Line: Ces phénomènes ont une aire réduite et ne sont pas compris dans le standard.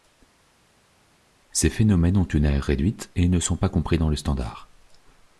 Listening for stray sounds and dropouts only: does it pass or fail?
pass